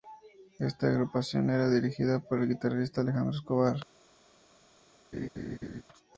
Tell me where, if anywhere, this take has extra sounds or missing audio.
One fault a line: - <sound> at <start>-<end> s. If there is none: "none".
- laugh at 5.1-5.8 s